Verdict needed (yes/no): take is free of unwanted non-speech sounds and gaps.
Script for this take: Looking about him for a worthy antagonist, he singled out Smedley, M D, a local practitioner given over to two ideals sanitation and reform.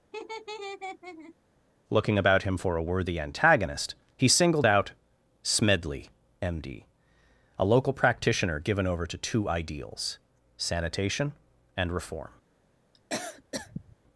no